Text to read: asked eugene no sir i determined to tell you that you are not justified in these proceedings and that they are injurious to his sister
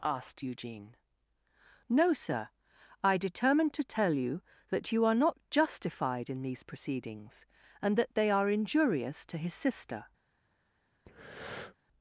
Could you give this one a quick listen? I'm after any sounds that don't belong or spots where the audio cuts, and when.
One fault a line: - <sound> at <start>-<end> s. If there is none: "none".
- breath at 11.1-11.8 s